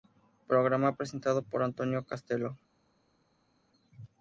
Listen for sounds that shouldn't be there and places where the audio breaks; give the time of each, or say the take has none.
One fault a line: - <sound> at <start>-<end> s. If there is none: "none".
none